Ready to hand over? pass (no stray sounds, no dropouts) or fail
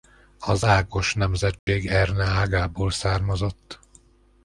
fail